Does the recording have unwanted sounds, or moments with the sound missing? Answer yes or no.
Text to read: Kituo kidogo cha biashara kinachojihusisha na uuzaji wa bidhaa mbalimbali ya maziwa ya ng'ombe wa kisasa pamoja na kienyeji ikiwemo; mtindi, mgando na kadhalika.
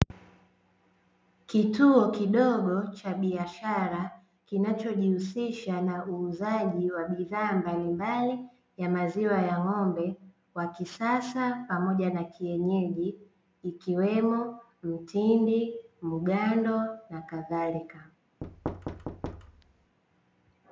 yes